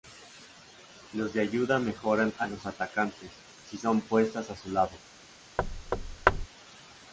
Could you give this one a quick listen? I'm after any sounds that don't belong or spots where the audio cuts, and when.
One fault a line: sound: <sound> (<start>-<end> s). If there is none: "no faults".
sound: thud (5.6-6.5 s)